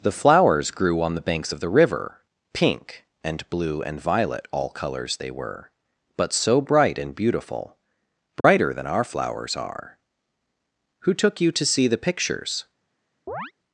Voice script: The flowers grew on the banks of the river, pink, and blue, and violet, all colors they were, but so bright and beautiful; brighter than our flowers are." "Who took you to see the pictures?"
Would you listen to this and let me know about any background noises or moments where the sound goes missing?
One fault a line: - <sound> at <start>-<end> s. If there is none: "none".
- dropout at 8.4-8.4 s
- chirp at 13.3-13.5 s